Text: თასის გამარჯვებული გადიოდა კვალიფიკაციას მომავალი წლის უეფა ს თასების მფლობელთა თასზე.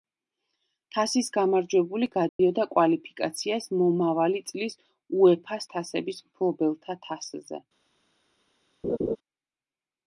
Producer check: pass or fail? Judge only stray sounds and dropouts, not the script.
fail